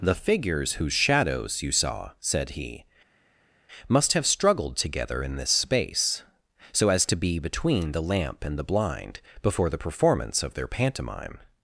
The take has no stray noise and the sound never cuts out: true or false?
true